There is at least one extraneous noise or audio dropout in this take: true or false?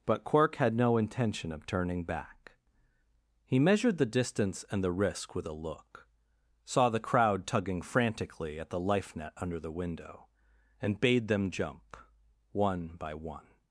false